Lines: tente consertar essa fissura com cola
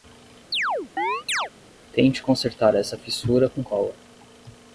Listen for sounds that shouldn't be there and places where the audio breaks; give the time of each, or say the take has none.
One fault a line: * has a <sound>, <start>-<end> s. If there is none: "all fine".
* has a chirp, 0.5-1.5 s